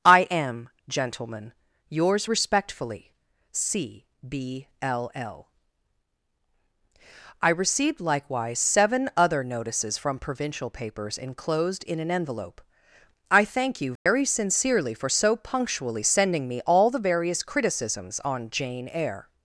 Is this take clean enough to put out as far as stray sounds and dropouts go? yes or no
no